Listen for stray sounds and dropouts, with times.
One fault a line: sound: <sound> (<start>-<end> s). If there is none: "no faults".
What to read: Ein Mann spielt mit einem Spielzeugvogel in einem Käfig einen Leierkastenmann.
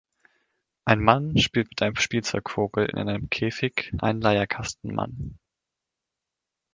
no faults